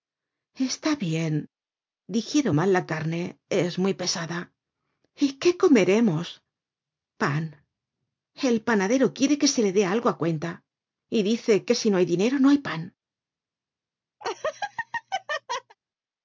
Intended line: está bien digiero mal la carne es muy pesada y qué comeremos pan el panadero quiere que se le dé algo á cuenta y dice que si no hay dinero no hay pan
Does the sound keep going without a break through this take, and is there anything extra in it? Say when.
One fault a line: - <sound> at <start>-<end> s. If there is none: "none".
- laugh at 14.2-15.8 s